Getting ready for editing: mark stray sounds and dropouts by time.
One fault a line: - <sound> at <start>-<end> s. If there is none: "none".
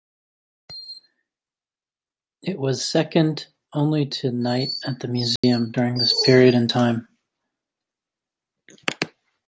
- dropout at 5.4-5.4 s